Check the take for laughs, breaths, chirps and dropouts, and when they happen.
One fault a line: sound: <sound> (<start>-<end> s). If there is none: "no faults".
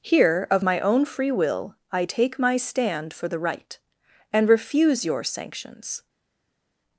no faults